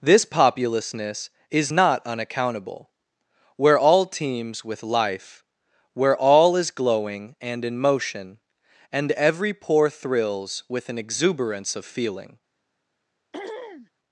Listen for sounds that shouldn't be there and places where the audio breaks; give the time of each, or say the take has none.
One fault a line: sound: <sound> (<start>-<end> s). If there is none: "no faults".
sound: throat clearing (13.3-13.9 s)